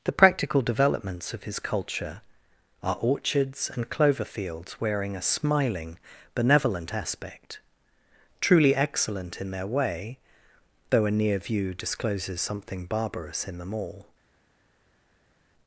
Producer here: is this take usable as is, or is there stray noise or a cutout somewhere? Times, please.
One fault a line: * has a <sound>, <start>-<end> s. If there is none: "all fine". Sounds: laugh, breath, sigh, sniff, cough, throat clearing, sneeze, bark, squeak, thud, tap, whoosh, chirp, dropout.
all fine